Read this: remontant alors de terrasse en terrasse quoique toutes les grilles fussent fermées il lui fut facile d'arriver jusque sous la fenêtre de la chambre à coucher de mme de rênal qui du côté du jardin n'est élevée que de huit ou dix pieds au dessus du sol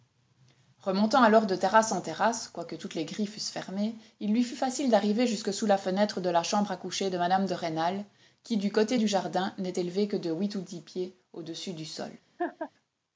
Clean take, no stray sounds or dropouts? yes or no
no